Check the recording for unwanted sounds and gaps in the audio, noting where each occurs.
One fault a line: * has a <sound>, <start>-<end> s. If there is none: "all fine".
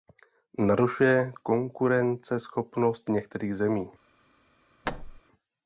* has a thud, 4.8-5.2 s